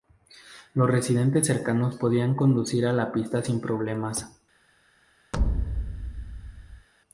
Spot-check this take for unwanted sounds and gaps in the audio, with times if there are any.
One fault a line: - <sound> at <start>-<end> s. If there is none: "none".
- thud at 5.3-6.9 s